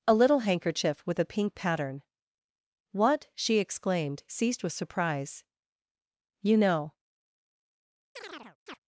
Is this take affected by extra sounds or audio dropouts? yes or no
yes